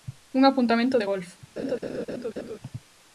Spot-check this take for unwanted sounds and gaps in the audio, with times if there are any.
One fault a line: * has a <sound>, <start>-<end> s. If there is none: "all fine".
* has a laugh, 1.6-2.6 s